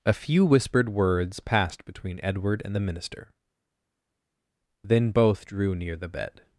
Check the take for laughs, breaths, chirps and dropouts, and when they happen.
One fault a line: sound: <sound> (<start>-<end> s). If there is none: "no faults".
no faults